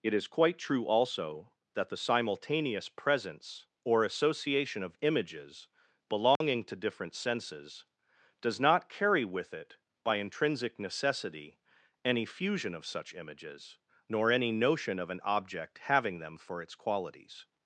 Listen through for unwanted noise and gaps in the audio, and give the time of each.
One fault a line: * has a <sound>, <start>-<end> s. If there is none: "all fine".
* has a dropout, 6.4-6.4 s